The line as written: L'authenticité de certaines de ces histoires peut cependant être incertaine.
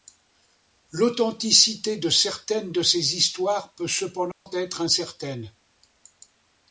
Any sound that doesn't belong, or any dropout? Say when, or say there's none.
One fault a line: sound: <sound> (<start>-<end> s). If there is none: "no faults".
sound: dropout (4.3-4.5 s)